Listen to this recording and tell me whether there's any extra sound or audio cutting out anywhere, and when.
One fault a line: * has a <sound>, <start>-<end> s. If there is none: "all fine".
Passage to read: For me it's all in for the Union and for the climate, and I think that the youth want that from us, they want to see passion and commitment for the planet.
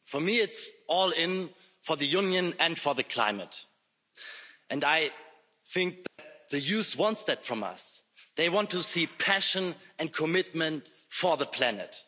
* has a dropout, 6.1-6.2 s